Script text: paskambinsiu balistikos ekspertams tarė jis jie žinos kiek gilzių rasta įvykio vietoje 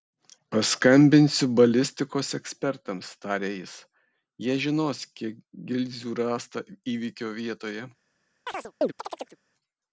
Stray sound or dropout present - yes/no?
yes